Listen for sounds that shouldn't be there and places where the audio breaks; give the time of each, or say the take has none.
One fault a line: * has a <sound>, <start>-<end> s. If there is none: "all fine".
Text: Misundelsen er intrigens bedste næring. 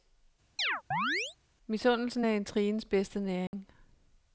* has a chirp, 0.6-1.4 s
* has a dropout, 3.5-3.5 s